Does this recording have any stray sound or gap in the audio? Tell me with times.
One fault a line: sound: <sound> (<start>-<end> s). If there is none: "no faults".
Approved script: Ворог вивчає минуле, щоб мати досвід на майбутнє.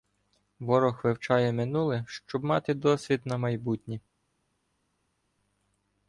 no faults